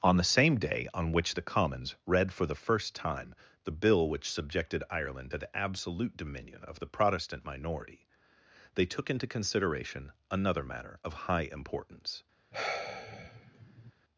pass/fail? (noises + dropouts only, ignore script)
fail